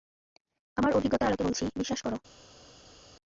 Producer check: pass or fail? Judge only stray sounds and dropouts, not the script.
pass